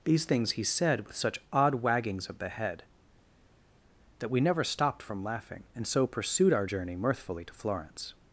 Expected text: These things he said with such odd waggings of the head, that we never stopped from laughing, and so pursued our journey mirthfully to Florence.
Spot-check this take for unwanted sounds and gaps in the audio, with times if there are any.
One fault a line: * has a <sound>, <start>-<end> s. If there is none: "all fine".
all fine